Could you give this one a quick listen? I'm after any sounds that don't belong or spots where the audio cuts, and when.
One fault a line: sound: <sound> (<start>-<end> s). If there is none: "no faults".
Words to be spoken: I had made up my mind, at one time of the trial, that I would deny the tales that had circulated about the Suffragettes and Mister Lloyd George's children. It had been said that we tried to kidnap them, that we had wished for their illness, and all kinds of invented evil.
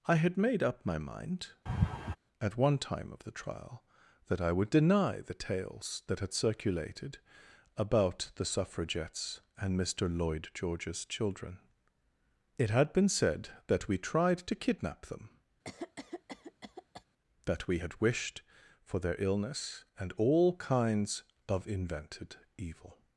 sound: laugh (1.7-2.2 s)
sound: cough (15.6-17.0 s)